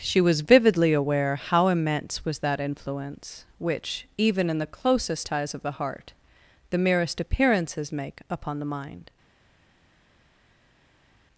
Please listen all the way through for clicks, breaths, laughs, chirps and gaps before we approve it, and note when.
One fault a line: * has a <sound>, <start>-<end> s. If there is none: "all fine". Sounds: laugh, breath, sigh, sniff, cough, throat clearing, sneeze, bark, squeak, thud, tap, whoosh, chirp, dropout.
all fine